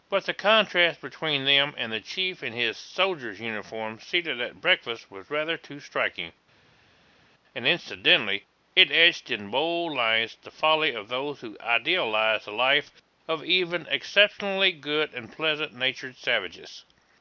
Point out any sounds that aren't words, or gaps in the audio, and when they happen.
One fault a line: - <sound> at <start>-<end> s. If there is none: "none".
none